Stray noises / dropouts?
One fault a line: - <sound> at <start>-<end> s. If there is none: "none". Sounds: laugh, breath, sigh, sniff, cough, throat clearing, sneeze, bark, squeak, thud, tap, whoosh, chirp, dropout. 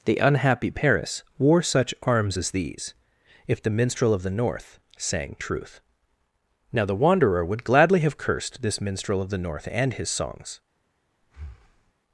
- breath at 11.2-11.9 s